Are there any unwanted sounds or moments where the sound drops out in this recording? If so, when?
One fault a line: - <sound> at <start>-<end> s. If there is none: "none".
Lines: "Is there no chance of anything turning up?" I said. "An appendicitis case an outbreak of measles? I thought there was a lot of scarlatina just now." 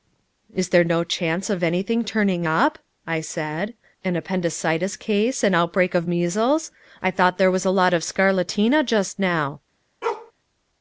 - bark at 10.0-10.3 s